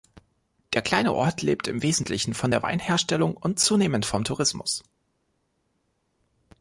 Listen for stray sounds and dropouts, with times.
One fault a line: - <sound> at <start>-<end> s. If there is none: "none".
none